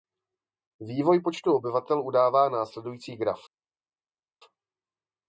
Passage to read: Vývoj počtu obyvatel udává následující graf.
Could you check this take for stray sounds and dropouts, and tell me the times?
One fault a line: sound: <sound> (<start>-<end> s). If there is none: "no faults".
no faults